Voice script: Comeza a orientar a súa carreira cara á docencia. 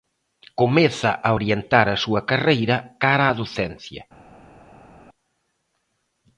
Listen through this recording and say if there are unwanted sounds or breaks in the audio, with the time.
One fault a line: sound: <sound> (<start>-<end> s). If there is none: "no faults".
no faults